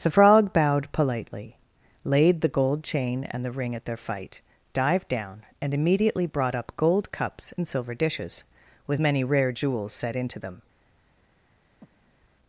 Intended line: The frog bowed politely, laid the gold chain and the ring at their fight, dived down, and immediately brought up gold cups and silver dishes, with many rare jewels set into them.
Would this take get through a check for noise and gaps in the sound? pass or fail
fail